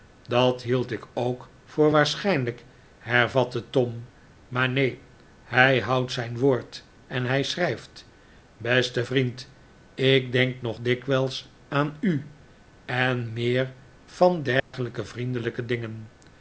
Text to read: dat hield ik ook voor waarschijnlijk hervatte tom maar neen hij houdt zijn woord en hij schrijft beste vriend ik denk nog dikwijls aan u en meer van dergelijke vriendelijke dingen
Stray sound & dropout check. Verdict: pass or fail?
fail